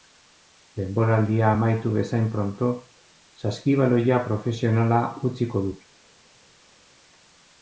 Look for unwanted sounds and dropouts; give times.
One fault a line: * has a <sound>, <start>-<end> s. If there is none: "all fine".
all fine